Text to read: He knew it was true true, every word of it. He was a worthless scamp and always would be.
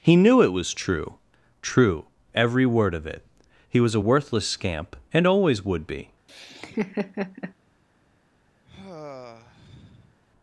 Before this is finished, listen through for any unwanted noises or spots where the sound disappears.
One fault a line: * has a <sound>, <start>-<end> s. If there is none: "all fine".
* has a laugh, 6.3-7.5 s
* has a sigh, 8.6-10.2 s